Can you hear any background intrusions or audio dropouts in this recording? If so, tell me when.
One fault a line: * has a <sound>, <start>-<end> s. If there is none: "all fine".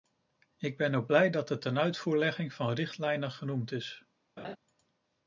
* has a laugh, 4.4-4.6 s